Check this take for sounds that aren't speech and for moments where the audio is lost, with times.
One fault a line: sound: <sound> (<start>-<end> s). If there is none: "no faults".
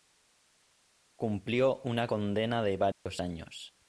sound: dropout (2.9-3.1 s)